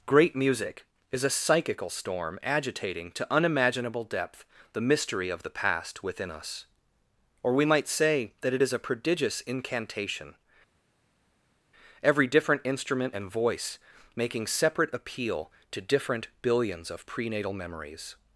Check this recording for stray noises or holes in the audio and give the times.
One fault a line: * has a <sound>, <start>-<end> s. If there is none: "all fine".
all fine